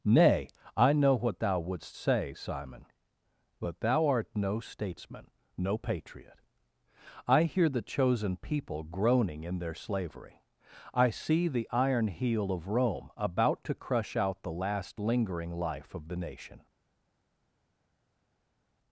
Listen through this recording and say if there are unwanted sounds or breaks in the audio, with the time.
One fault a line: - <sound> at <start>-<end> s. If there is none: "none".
none